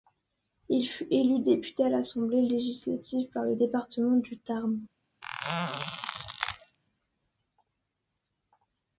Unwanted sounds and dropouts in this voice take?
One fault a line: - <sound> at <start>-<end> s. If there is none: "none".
- squeak at 5.2-6.8 s